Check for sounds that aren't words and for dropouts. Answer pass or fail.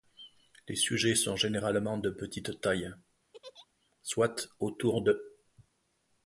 fail